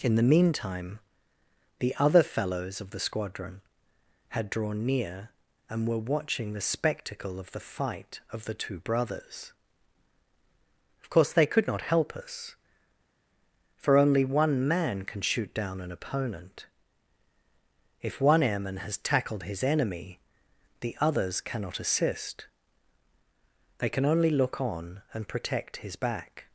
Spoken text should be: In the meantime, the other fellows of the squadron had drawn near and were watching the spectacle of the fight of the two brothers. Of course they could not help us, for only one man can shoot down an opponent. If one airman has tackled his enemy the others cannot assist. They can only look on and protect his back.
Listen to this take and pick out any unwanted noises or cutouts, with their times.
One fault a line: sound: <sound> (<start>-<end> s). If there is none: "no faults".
no faults